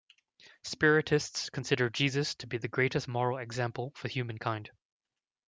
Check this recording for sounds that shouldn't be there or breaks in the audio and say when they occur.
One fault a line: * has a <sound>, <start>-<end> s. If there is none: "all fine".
all fine